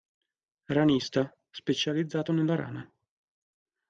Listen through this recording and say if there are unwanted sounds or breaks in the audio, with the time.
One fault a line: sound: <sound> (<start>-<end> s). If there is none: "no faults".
no faults